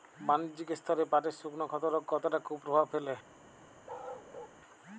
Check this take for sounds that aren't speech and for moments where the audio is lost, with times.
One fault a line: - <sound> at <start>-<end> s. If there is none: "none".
- bark at 3.9-4.6 s